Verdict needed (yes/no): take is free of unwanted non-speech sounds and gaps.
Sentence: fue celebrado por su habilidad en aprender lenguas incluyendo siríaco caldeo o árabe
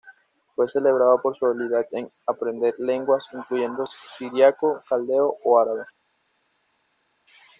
yes